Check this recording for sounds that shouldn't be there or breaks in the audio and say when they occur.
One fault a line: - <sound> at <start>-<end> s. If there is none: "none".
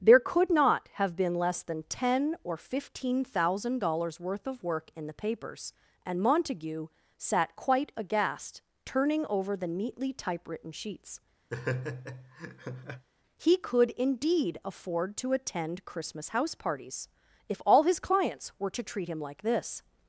- laugh at 11.5-13.1 s